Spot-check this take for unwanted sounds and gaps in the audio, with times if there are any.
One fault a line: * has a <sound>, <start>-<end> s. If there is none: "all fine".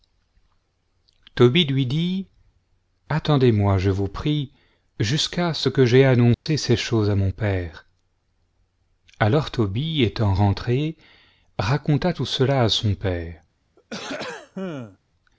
* has a dropout, 6.3-6.5 s
* has a throat clearing, 13.8-15.0 s